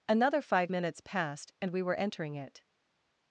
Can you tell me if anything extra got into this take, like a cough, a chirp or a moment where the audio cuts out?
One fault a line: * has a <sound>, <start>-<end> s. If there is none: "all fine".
all fine